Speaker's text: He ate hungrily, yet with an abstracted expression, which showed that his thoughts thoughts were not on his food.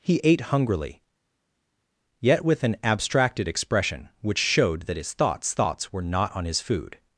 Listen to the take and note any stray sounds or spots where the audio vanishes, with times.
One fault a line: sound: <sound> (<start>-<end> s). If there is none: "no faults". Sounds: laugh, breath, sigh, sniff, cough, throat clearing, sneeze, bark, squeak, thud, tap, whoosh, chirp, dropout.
no faults